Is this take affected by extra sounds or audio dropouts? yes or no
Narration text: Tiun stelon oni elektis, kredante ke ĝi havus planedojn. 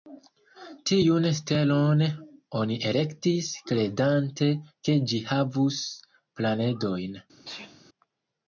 yes